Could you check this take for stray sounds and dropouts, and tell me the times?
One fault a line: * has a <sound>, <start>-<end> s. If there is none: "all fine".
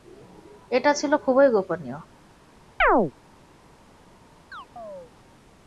* has a chirp, 2.8-3.1 s
* has a chirp, 4.5-5.1 s